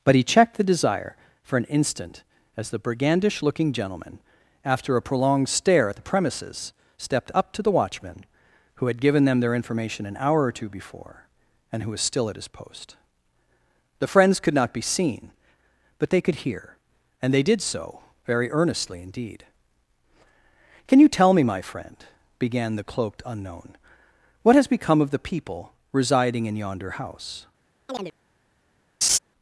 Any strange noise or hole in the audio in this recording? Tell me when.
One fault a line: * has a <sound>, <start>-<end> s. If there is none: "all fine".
* has a chirp, 27.9-28.1 s
* has a laugh, 29.0-29.2 s